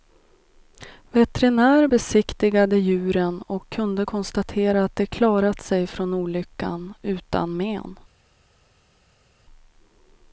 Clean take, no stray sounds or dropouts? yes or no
yes